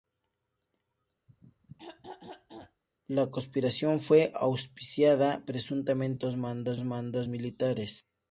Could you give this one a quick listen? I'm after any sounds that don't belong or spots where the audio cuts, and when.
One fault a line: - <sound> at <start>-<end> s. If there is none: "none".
- throat clearing at 1.3-2.8 s